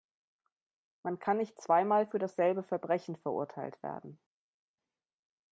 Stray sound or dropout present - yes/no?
no